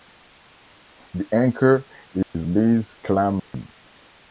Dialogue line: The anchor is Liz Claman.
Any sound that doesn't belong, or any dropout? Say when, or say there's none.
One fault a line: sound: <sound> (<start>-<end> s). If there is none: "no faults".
sound: dropout (2.2-2.3 s)
sound: dropout (3.4-3.5 s)